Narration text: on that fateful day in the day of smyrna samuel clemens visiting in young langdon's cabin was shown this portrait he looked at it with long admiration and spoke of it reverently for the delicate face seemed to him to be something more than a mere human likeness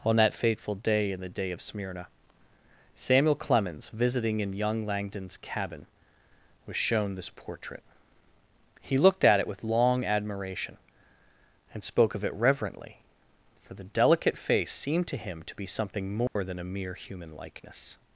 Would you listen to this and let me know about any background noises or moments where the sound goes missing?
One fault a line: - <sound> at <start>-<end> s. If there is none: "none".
- dropout at 16.3-16.4 s